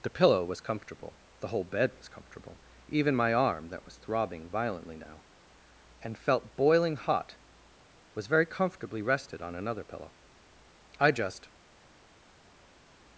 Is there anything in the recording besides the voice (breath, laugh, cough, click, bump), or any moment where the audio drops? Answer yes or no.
no